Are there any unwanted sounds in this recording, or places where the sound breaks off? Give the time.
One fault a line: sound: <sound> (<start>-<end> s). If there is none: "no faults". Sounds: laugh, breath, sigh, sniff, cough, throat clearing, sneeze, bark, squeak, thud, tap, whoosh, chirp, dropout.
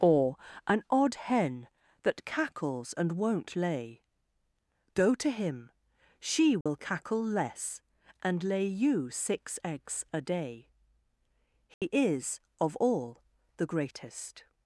sound: dropout (6.6-6.7 s)
sound: dropout (11.7-11.8 s)